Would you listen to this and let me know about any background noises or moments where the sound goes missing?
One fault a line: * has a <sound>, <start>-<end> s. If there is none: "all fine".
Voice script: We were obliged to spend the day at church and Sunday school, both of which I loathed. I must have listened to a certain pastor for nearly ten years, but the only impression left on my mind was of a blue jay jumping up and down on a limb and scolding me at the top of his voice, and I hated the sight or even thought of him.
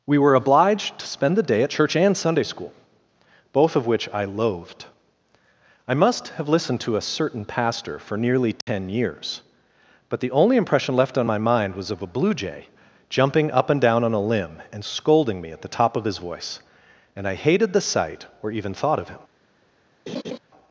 * has a dropout, 8.6-8.7 s
* has a laugh, 20.1-20.4 s